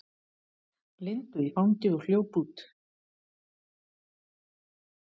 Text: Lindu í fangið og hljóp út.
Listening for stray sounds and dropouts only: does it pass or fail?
pass